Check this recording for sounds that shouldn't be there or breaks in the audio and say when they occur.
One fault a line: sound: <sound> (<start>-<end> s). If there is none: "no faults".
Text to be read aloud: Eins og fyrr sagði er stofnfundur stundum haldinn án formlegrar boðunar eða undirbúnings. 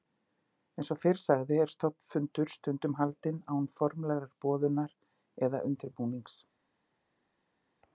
no faults